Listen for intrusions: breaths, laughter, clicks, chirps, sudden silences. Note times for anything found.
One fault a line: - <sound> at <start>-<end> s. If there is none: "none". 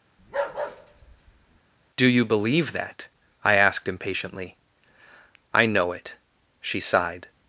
- bark at 0.2-1.6 s